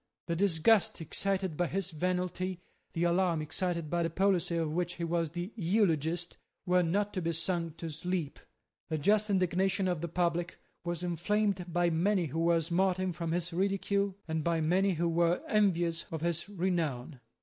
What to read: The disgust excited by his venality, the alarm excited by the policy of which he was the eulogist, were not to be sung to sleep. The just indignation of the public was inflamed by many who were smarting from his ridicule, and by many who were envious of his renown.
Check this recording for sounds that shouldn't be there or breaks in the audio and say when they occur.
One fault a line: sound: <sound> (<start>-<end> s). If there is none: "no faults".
no faults